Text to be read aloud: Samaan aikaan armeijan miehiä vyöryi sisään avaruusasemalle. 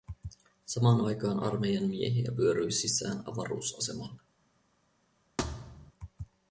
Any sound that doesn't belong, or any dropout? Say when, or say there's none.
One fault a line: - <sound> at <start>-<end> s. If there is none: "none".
- thud at 5.4-5.9 s